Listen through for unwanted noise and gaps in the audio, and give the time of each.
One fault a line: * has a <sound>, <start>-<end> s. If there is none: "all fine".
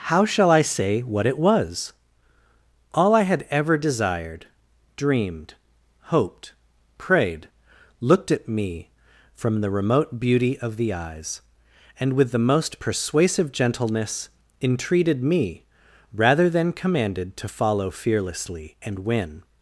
all fine